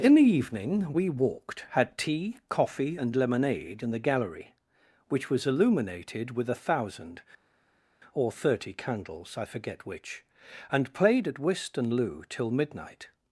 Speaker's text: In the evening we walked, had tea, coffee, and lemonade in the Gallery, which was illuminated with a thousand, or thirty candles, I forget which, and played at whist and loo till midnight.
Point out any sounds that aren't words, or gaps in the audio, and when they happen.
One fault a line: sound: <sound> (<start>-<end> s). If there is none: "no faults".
no faults